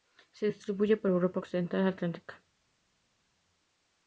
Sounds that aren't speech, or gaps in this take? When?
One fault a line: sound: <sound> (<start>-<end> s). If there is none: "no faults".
no faults